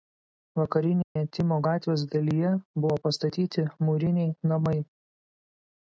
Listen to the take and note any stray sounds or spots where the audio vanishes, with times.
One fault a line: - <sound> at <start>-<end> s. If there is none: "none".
- dropout at 1.0-1.2 s